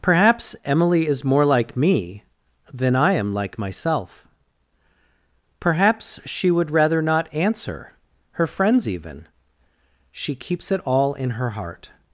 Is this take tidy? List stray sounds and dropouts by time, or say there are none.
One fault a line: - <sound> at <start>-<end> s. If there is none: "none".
none